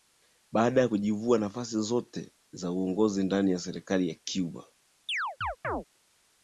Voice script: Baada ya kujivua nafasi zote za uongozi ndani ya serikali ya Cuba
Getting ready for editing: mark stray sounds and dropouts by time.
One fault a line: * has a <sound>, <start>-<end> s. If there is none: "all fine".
* has a chirp, 5.1-5.8 s